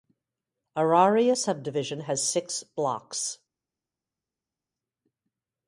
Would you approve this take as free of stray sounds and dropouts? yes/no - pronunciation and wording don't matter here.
yes